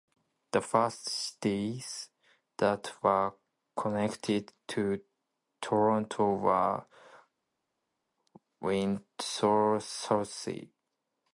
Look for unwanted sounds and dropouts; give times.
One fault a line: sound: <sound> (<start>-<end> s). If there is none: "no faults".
no faults